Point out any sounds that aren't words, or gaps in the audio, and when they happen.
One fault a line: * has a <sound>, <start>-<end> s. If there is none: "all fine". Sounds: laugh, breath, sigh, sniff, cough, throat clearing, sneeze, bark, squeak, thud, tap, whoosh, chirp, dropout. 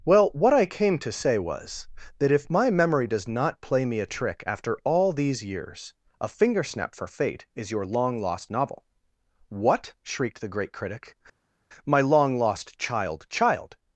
all fine